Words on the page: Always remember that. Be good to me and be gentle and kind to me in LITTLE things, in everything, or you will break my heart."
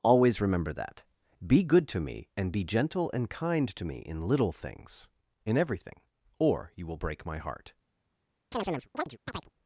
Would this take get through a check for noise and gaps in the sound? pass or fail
fail